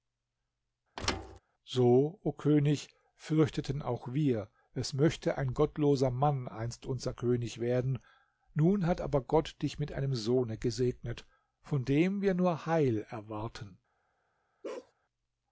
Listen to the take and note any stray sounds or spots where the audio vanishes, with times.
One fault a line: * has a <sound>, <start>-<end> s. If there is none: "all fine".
* has a thud, 1.0-1.4 s
* has a bark, 14.6-14.9 s